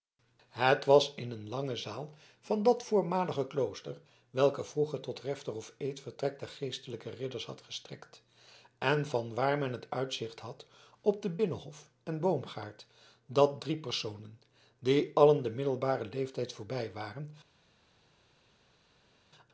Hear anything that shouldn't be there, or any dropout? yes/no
no